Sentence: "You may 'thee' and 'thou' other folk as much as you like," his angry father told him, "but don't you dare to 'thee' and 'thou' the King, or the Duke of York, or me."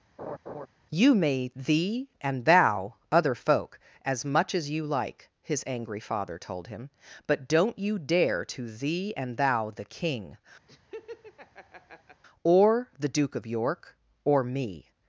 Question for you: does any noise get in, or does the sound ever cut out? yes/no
yes